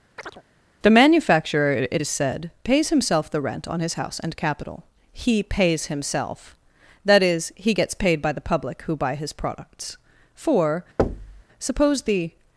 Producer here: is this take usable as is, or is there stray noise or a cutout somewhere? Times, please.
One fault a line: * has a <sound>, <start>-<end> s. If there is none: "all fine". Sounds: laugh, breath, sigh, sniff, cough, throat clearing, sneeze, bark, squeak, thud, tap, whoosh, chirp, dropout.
* has a chirp, 0.2-0.4 s
* has a thud, 11.0-11.4 s